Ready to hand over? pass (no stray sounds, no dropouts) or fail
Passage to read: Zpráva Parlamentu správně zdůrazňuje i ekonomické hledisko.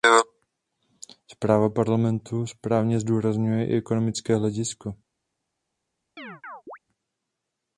fail